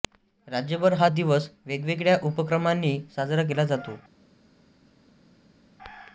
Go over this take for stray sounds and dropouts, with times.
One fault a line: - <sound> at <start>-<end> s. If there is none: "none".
none